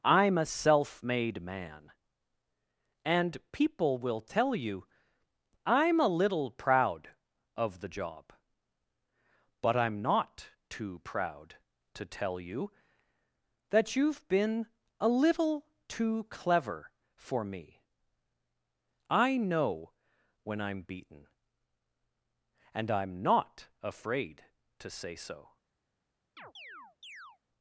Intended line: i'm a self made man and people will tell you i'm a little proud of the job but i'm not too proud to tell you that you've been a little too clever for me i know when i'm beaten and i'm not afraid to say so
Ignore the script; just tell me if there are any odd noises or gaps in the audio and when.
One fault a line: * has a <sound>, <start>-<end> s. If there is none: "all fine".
* has a chirp, 26.4-27.4 s